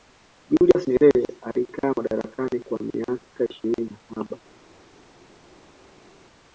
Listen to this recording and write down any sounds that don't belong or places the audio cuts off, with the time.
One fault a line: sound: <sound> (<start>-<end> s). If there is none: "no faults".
no faults